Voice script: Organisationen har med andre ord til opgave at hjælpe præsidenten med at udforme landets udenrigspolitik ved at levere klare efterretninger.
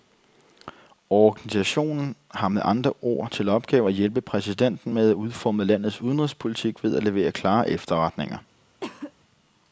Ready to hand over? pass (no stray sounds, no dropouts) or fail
fail